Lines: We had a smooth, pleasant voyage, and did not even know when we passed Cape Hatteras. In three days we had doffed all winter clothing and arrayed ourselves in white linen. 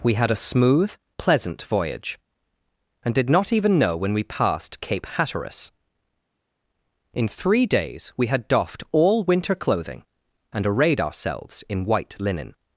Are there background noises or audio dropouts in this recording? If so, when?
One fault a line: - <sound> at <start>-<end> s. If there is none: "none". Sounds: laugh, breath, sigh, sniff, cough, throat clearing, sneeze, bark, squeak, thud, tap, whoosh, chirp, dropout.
none